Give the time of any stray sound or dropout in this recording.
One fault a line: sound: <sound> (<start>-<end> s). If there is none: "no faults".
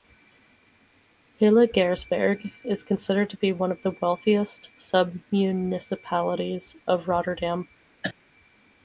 sound: cough (8.0-8.1 s)